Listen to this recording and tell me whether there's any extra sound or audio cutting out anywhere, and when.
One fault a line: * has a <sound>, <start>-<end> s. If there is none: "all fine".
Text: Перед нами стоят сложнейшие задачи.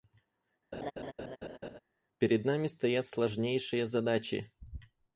* has a laugh, 0.7-1.8 s